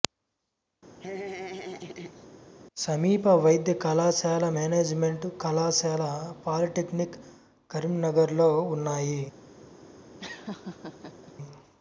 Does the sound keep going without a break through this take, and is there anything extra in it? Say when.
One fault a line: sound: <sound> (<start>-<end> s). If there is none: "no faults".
sound: laugh (1.0-2.3 s)
sound: laugh (10.2-11.3 s)